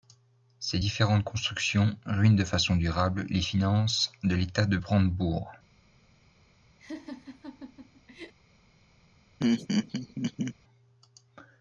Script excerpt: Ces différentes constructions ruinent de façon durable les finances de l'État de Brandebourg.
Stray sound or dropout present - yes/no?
yes